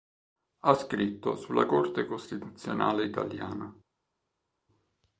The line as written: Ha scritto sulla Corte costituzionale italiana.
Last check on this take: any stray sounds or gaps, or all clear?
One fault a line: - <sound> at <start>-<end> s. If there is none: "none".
none